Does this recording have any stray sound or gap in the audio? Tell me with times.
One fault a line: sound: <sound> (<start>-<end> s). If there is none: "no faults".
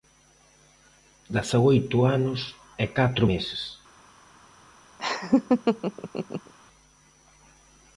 sound: laugh (5.0-6.5 s)